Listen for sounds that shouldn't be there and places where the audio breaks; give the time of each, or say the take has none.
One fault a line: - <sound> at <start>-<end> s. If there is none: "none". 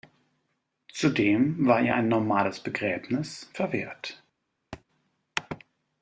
- thud at 4.7-4.8 s